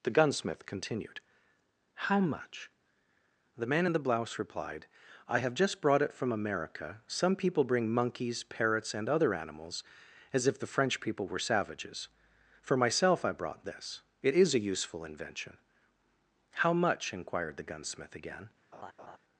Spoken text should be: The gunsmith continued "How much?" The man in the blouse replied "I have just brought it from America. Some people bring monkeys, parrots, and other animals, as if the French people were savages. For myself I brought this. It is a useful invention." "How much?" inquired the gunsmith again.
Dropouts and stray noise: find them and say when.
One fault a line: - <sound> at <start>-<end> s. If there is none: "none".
- laugh at 18.7-19.2 s